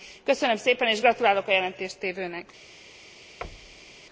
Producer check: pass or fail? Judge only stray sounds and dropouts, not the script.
fail